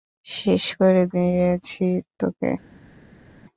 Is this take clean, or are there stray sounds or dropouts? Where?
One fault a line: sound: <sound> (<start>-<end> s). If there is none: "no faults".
no faults